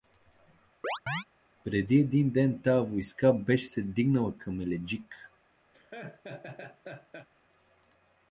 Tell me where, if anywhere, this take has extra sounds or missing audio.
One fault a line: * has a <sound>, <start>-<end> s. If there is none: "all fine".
* has a chirp, 0.8-1.2 s
* has a laugh, 5.7-7.3 s